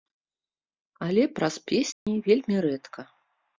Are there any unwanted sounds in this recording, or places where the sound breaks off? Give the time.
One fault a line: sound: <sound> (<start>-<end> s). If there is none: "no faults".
sound: dropout (1.9-2.1 s)